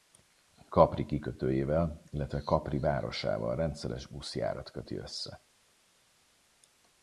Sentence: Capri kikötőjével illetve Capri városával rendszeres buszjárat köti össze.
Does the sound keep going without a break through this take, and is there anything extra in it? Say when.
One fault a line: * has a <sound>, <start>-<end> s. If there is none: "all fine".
all fine